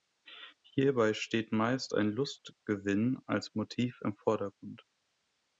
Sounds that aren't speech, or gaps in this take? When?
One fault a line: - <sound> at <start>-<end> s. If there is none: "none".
none